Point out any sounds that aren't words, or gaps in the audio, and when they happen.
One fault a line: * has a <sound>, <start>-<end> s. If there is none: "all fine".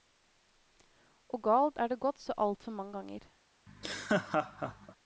* has a laugh, 3.7-5.0 s